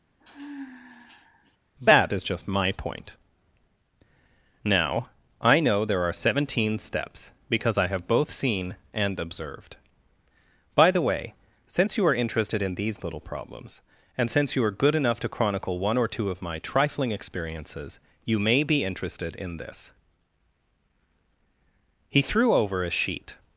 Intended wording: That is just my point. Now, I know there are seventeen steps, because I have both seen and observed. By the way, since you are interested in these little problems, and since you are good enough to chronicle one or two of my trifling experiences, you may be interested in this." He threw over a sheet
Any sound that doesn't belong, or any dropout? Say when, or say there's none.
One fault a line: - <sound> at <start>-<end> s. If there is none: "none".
- sigh at 0.2-1.6 s